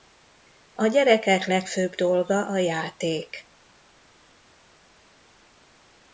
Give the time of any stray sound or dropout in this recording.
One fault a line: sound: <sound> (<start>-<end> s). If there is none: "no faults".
no faults